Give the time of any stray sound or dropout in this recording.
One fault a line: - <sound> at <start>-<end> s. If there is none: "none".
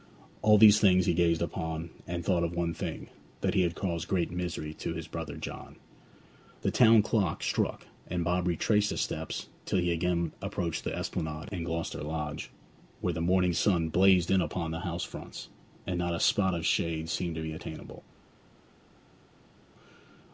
none